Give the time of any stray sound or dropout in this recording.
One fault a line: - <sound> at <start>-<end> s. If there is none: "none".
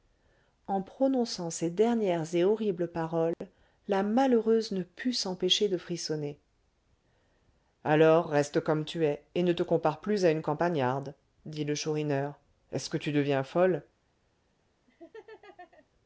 - dropout at 3.3-3.4 s
- laugh at 14.9-15.9 s